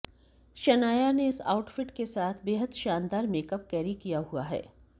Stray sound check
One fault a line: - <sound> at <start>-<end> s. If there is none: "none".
none